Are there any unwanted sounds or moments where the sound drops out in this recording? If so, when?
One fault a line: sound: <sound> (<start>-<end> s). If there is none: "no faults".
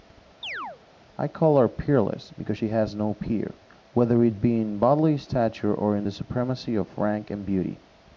sound: chirp (0.4-0.8 s)